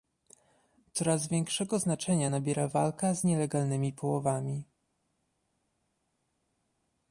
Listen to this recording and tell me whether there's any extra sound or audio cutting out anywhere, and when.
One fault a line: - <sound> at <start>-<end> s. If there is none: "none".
none